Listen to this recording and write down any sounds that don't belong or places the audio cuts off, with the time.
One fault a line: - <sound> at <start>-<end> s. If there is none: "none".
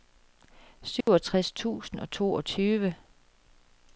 - dropout at 1.0-1.1 s